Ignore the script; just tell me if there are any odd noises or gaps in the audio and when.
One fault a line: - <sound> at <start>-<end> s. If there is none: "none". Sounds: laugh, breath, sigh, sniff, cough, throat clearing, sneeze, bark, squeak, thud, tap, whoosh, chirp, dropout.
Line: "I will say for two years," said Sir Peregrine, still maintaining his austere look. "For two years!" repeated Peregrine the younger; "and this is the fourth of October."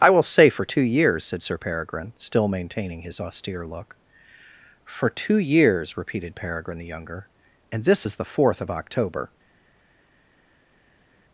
none